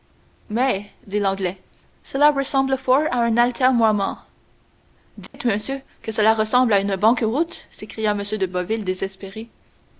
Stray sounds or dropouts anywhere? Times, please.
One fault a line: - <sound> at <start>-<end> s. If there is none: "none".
- dropout at 5.3-5.3 s